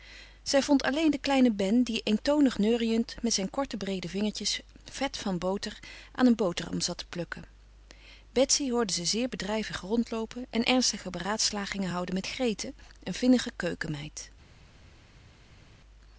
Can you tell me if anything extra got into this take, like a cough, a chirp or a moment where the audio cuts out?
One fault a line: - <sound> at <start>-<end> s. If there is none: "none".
none